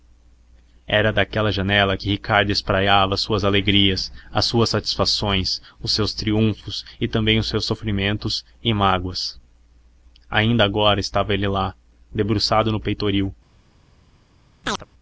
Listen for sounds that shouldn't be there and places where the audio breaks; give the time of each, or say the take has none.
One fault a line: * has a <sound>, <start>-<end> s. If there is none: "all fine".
* has a chirp, 14.6-14.9 s